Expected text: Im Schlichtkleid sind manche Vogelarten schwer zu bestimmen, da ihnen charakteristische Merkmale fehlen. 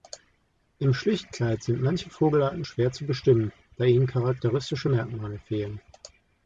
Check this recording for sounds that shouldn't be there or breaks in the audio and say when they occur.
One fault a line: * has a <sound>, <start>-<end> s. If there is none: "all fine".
all fine